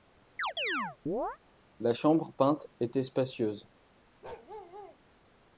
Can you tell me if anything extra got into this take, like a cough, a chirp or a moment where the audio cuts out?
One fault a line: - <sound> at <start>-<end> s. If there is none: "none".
- chirp at 0.4-1.4 s
- bark at 4.2-5.0 s